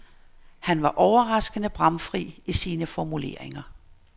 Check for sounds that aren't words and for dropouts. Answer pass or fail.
pass